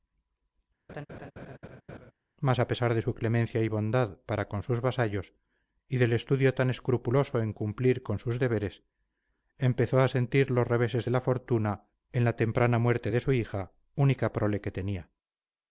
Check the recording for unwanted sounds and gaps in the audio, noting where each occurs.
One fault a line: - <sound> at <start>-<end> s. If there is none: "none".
- laugh at 0.9-2.1 s